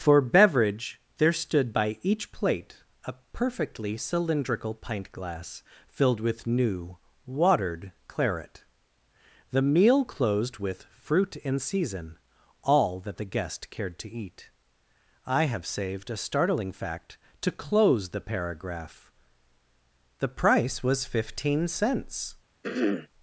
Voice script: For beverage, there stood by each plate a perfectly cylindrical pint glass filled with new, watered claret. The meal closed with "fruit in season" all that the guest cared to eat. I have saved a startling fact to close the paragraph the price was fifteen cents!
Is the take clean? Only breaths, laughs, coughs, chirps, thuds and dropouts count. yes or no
no